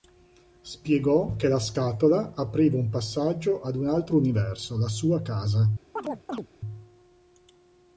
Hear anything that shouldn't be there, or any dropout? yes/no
yes